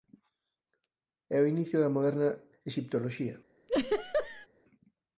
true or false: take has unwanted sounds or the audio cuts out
true